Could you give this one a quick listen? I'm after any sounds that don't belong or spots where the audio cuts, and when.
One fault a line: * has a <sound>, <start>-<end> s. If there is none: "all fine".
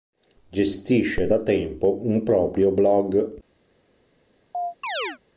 * has a chirp, 4.5-5.2 s